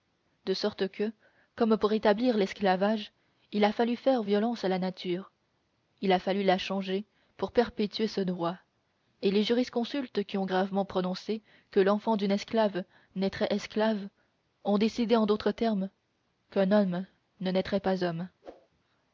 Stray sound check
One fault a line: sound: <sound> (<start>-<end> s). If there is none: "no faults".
sound: whoosh (18.4-18.7 s)